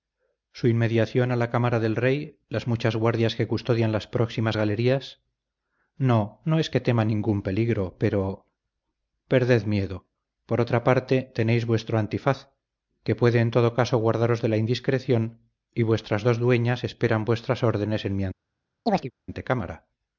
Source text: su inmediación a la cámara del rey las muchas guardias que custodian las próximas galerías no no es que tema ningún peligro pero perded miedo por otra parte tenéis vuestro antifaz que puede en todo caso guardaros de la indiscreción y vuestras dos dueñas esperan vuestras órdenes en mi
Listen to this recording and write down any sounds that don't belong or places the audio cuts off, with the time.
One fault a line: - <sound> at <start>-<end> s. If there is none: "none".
- chirp at 18.9-19.1 s